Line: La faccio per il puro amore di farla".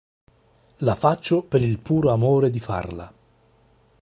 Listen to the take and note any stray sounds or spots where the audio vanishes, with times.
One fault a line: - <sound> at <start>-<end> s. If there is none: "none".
none